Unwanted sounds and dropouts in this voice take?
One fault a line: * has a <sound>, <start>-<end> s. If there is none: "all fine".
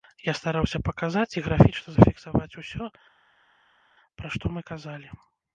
all fine